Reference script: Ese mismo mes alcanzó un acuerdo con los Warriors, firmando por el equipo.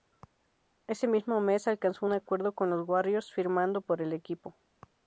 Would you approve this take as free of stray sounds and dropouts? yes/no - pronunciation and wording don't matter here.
yes